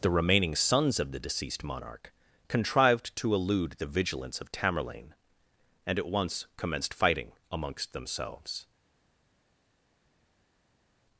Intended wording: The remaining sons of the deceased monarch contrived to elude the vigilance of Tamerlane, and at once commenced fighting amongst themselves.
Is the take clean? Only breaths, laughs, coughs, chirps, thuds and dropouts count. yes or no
yes